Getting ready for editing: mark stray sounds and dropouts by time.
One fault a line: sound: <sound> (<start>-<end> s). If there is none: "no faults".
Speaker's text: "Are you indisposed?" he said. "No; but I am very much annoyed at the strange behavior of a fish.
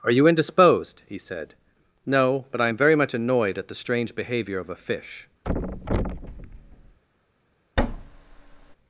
sound: thud (5.4-7.0 s)
sound: thud (7.8-8.8 s)